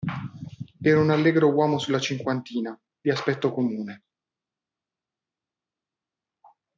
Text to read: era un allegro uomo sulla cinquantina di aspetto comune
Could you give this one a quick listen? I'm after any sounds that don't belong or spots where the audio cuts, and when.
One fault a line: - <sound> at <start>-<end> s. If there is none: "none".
none